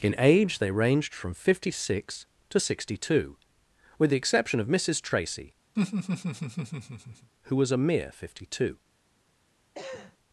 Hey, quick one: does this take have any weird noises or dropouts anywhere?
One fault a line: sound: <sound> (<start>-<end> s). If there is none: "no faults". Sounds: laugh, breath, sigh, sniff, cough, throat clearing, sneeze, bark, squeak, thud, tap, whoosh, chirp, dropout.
sound: laugh (5.8-7.3 s)
sound: cough (9.7-10.2 s)